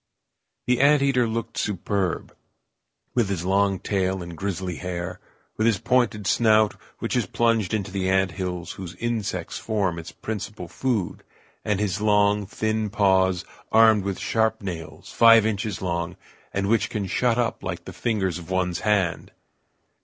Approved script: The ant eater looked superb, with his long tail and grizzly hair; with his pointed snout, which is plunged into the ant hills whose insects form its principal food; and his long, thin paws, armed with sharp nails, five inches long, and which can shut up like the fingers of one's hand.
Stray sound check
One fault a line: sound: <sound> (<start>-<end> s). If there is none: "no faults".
no faults